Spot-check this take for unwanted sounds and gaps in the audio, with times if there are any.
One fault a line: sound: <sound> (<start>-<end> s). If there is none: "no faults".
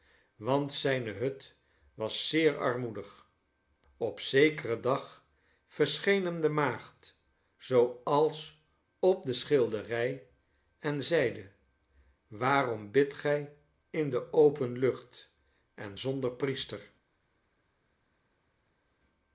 no faults